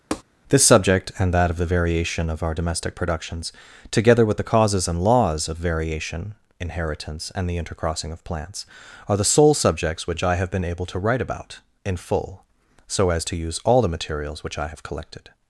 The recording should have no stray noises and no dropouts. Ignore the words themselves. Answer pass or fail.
fail